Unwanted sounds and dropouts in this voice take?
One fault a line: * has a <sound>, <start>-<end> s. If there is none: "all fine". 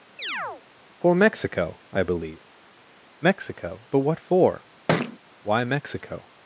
* has a chirp, 0.2-0.6 s
* has a thud, 4.9-5.2 s